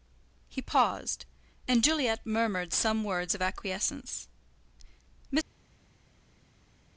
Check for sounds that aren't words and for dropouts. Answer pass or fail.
pass